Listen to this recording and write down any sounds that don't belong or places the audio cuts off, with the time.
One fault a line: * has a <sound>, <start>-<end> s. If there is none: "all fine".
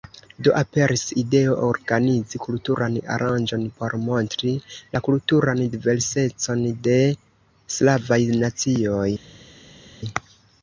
all fine